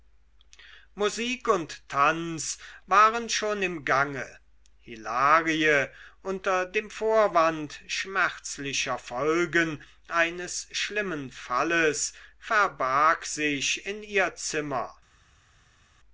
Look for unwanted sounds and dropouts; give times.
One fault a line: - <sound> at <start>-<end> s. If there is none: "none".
none